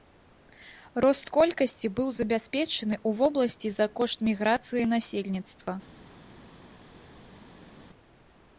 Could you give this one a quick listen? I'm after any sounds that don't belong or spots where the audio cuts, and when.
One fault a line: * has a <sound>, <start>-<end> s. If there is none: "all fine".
all fine